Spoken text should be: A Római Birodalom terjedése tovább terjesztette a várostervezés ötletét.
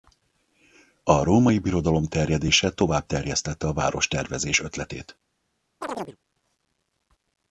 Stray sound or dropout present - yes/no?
yes